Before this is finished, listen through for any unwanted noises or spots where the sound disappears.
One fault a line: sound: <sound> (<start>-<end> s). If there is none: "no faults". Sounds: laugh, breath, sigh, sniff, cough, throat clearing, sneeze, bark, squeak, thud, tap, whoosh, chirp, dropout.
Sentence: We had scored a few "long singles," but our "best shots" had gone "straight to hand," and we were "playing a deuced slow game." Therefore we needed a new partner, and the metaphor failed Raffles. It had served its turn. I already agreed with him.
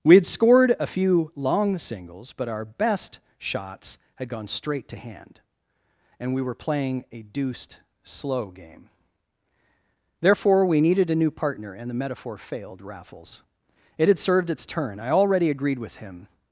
no faults